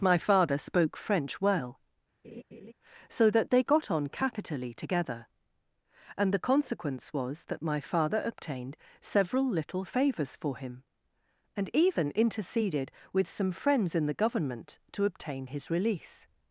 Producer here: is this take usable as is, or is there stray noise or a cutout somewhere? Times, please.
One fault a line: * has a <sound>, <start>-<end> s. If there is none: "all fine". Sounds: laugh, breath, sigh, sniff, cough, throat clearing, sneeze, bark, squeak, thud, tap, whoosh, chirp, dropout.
* has a laugh, 2.2-2.7 s